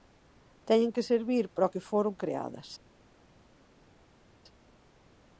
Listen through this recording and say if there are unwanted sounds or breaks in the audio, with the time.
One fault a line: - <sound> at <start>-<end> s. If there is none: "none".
none